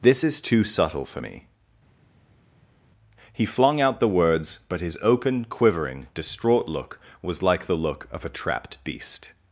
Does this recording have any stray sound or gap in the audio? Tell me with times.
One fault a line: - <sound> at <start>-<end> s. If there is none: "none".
none